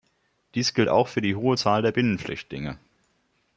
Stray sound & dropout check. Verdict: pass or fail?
pass